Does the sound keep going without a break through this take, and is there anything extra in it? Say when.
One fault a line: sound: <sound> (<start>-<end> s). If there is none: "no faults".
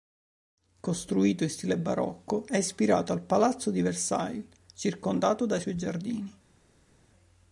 no faults